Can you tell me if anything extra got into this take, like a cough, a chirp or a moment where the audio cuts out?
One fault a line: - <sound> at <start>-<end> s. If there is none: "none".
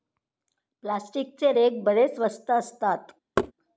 - thud at 3.4-3.5 s